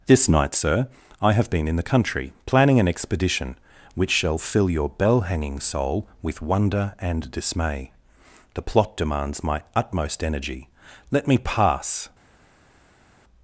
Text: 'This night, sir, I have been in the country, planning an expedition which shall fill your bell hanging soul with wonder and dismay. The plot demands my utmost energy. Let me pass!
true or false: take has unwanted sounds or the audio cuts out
false